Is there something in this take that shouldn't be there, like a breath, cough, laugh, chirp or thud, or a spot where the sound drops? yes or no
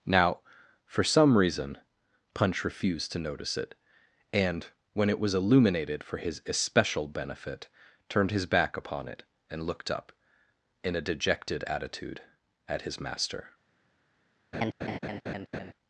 yes